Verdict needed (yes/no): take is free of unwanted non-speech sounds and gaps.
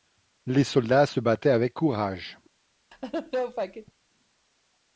no